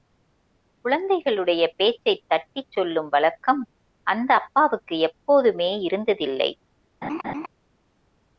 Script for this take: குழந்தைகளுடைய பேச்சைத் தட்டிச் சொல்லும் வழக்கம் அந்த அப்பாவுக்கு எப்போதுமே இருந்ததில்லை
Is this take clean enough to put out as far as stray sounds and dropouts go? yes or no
no